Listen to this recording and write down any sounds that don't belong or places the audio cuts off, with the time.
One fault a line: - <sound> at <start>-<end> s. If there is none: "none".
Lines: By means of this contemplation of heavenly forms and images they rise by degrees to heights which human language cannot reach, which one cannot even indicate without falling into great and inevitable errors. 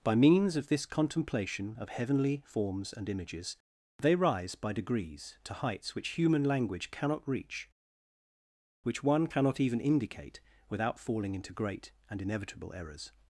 none